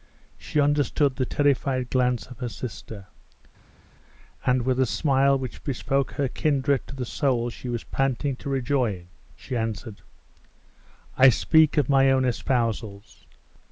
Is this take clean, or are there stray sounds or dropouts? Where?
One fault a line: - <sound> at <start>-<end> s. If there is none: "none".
none